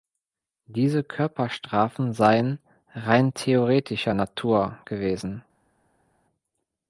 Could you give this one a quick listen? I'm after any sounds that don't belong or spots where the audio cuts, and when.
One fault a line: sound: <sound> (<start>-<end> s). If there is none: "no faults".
no faults